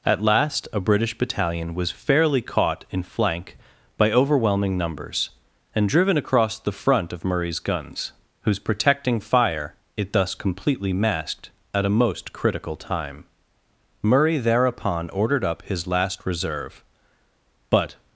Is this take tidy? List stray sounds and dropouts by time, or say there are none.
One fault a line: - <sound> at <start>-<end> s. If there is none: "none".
none